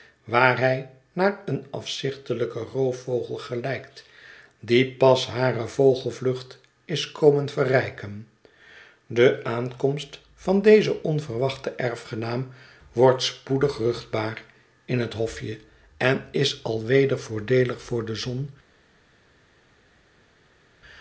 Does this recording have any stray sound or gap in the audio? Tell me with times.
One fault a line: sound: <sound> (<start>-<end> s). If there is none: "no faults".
no faults